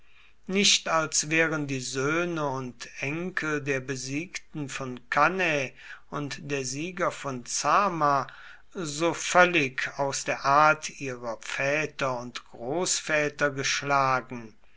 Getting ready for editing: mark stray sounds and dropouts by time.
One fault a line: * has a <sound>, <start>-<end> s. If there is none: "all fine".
all fine